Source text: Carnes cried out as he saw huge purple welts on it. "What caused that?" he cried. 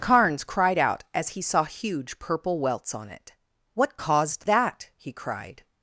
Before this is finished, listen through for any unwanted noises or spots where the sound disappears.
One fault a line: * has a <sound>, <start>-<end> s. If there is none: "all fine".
all fine